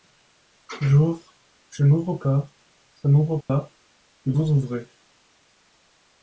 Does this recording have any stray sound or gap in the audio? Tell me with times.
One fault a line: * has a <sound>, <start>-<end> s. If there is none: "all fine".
* has a dropout, 3.4-3.5 s